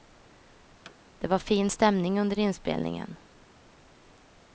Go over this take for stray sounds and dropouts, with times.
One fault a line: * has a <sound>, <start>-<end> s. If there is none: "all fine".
* has a thud, 0.8-1.0 s